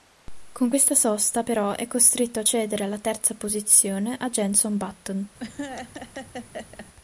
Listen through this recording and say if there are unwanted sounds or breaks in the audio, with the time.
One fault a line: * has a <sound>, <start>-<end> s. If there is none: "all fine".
* has a laugh, 5.4-6.9 s